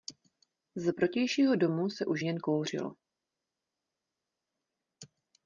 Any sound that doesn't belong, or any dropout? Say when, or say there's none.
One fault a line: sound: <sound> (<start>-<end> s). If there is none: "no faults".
no faults